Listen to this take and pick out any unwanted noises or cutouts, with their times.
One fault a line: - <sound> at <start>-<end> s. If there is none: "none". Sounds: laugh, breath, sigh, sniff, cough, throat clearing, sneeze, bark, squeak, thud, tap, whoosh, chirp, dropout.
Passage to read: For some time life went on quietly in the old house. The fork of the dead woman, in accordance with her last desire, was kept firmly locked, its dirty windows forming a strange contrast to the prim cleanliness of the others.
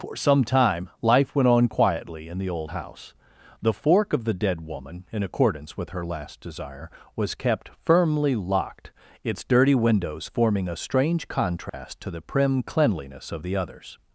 - dropout at 11.7-11.7 s